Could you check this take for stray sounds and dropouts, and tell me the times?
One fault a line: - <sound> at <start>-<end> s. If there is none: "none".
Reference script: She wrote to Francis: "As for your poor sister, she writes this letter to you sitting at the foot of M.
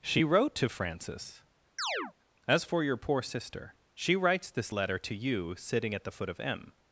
- chirp at 1.8-2.1 s